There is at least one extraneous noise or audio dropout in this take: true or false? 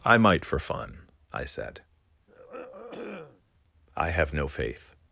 true